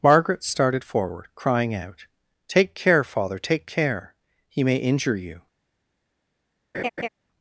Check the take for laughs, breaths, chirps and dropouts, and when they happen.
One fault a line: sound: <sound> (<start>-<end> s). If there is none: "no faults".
sound: laugh (6.7-7.1 s)